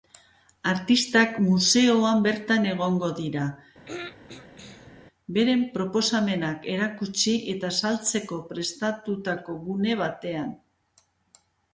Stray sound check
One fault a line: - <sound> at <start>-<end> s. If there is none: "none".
- throat clearing at 3.9-5.0 s